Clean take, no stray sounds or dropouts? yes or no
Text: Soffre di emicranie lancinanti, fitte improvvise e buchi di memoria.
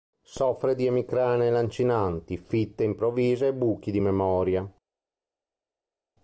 yes